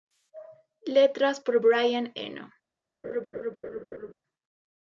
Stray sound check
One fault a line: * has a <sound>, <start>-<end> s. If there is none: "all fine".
* has a laugh, 3.0-4.1 s